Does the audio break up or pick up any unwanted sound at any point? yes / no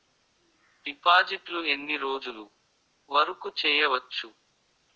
no